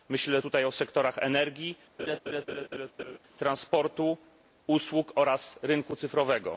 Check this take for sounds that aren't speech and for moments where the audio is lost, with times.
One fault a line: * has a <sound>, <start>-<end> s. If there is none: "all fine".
* has a laugh, 2.0-3.2 s